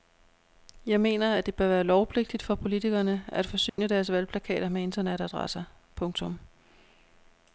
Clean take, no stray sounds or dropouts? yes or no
no